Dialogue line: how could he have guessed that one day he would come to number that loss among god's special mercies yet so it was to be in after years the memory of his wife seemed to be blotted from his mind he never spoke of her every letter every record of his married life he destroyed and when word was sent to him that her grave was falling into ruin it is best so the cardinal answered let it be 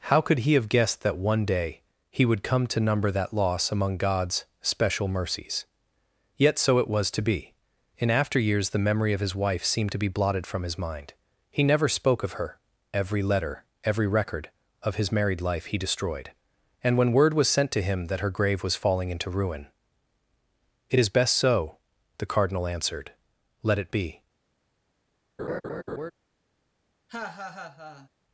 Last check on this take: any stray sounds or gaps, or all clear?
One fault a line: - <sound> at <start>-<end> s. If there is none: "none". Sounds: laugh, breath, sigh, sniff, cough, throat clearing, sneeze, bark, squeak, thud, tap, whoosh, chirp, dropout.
- laugh at 25.4-26.1 s
- laugh at 27.1-28.1 s